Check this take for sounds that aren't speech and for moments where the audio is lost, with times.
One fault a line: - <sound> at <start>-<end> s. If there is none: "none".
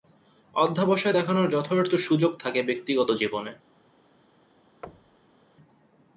- thud at 4.8-5.4 s